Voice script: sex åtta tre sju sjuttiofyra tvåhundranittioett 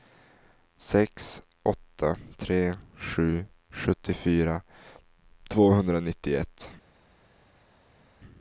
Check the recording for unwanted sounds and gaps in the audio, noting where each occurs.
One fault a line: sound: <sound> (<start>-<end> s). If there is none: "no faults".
no faults